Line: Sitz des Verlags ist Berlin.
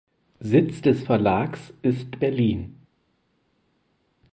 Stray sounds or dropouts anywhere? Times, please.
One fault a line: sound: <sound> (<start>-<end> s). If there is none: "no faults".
no faults